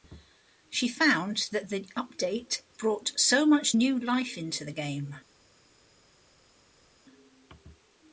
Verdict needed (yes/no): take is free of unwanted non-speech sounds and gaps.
yes